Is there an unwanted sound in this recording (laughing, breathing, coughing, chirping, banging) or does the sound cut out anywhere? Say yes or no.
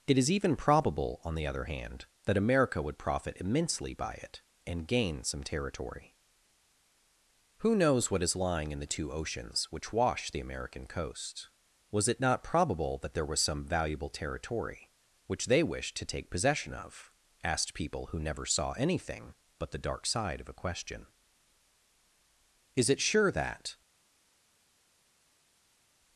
no